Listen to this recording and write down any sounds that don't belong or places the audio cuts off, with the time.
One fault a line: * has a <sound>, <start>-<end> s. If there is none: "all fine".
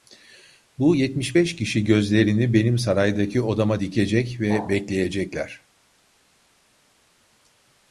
all fine